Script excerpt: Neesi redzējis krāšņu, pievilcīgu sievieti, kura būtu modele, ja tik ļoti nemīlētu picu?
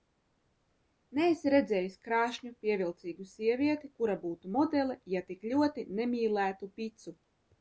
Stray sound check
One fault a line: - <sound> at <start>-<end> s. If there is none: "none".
none